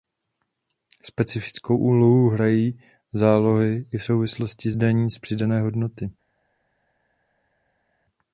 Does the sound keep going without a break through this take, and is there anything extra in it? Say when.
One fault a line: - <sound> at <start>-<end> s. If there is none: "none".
none